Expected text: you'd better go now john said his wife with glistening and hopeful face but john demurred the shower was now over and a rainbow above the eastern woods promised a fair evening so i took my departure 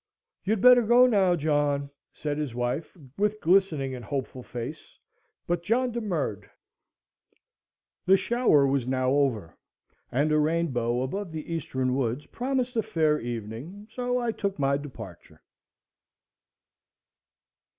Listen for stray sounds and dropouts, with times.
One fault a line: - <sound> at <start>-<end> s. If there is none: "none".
none